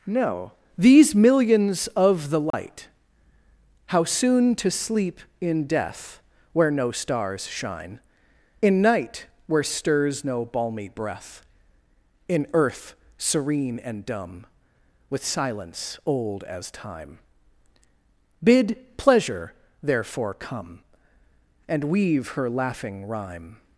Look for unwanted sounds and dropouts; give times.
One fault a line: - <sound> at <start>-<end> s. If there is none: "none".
- dropout at 2.5-2.5 s